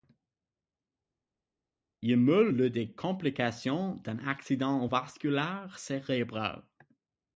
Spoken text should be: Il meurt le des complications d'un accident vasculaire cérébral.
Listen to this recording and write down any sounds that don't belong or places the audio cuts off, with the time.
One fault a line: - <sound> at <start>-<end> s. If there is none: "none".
none